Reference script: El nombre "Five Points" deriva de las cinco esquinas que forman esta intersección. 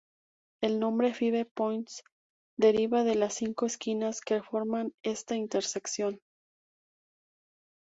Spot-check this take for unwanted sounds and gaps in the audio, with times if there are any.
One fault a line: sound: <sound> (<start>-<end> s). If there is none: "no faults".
no faults